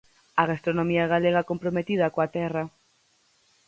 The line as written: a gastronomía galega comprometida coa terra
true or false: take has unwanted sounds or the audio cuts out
false